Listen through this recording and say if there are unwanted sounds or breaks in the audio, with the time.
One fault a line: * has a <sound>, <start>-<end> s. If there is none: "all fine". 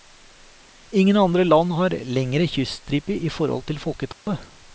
* has a dropout, 4.1-4.3 s